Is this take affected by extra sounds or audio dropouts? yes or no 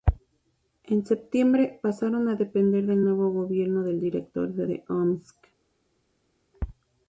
no